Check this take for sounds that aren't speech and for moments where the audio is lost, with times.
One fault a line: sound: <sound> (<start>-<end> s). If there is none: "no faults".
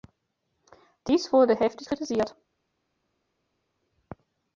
no faults